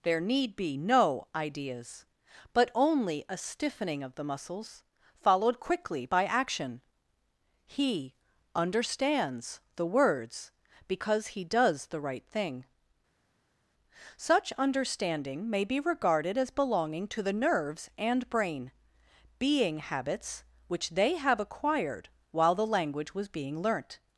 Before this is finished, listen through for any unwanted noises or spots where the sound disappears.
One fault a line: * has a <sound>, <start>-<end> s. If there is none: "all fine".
all fine